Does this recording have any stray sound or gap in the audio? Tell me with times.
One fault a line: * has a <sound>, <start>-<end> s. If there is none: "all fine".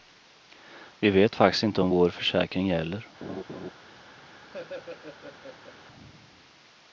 * has a laugh, 3.2-3.7 s
* has a laugh, 4.5-5.8 s